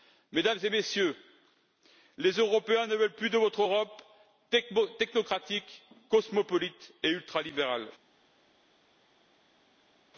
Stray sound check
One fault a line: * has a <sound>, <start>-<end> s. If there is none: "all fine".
all fine